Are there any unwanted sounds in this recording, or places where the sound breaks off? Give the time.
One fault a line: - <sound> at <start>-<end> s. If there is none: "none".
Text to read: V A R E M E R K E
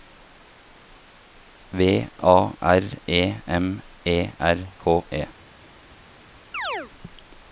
- chirp at 6.5-6.9 s